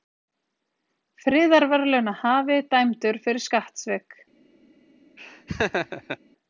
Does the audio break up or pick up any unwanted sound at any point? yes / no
yes